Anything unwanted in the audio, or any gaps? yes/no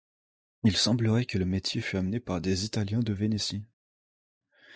no